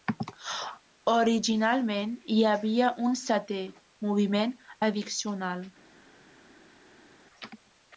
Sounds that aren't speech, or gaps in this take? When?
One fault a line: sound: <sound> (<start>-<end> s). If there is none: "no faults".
no faults